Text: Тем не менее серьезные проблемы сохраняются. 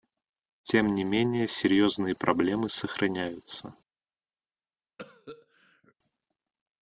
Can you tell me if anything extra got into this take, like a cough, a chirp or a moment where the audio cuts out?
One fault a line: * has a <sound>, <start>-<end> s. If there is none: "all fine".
* has a cough, 5.0-5.9 s